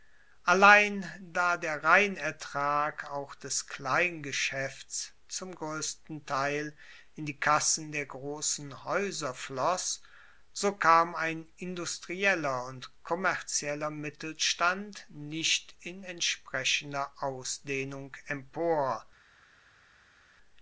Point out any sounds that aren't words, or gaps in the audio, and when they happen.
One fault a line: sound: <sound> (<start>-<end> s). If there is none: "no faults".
no faults